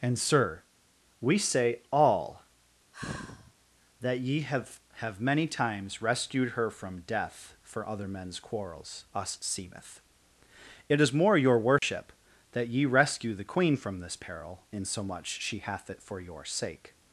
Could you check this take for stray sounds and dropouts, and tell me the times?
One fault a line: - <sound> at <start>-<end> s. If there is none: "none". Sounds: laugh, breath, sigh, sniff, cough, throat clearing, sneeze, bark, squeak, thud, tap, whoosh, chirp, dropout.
- sigh at 2.9-3.5 s
- dropout at 11.8-11.8 s